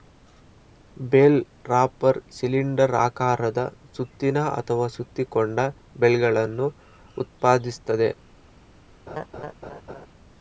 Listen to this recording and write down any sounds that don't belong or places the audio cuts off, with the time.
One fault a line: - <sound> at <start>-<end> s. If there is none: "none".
- laugh at 9.1-10.1 s